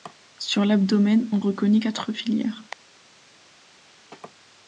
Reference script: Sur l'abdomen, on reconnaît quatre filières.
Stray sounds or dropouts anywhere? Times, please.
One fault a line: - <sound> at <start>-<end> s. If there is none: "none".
none